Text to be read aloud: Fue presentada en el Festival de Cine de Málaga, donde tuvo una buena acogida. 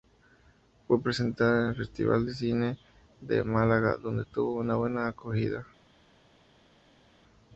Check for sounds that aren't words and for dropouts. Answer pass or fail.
pass